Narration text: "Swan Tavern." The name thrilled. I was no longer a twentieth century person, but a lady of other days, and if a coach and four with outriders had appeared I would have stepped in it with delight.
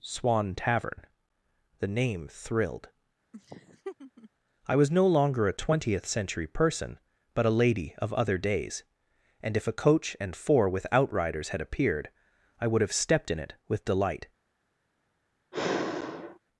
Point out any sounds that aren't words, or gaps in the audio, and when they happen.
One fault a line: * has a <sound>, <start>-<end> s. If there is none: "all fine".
* has a laugh, 3.3-4.3 s
* has a sigh, 15.5-16.4 s